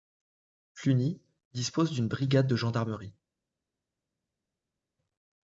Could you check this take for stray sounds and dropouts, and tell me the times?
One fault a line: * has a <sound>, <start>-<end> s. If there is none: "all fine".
all fine